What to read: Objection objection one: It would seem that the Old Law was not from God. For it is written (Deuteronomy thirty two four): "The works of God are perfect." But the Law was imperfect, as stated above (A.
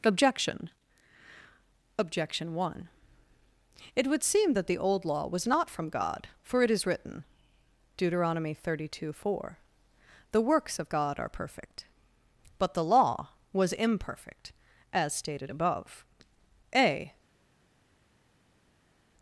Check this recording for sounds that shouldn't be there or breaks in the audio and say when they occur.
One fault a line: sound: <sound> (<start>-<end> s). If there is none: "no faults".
no faults